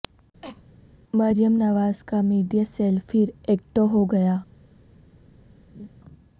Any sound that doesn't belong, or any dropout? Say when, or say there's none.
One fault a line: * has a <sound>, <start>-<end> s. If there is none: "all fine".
* has a cough, 0.4-0.6 s
* has a laugh, 5.7-5.9 s